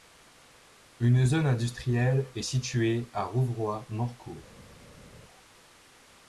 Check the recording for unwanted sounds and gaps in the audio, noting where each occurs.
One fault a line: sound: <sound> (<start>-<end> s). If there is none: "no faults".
no faults